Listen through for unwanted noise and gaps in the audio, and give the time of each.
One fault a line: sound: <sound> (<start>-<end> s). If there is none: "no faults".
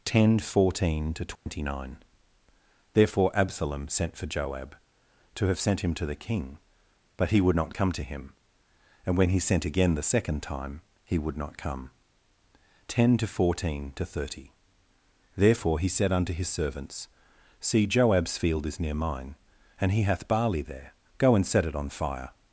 sound: dropout (1.4-1.5 s)